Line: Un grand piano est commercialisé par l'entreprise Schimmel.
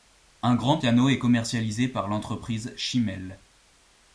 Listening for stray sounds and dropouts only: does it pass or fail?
pass